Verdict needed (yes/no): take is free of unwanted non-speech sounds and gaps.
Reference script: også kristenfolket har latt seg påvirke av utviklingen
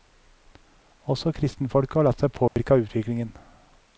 no